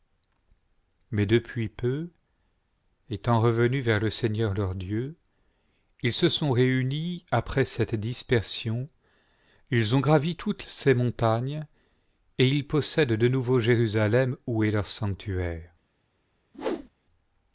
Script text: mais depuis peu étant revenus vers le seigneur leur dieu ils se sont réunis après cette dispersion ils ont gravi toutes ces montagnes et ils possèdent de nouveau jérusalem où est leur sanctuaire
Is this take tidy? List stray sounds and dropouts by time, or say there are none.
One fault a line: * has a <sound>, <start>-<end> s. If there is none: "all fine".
* has a whoosh, 16.5-16.9 s